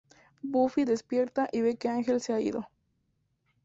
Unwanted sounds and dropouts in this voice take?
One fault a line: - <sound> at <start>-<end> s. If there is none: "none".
none